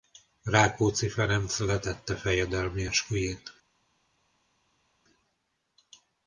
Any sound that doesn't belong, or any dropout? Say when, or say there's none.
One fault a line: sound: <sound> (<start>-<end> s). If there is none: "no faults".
no faults